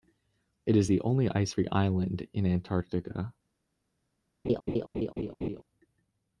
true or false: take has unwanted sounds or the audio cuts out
true